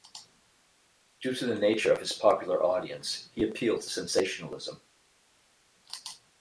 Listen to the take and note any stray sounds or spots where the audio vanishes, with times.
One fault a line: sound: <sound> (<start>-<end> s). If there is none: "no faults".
no faults